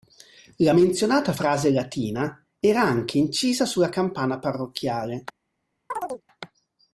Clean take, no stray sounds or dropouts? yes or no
no